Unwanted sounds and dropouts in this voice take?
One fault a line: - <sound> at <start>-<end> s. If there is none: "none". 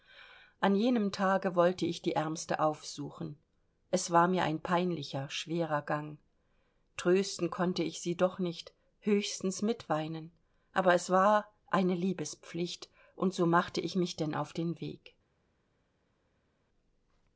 none